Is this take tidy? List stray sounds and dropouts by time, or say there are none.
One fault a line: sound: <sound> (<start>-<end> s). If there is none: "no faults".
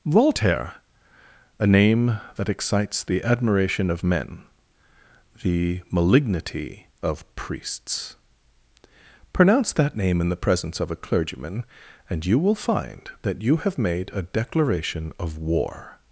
no faults